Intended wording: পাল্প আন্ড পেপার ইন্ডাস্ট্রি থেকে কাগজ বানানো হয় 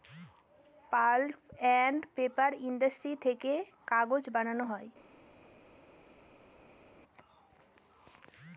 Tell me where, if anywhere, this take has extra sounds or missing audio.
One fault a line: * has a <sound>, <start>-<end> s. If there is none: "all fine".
all fine